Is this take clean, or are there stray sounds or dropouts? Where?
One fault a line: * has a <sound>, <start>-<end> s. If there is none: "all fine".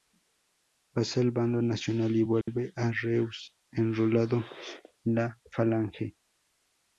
* has a dropout, 2.4-2.5 s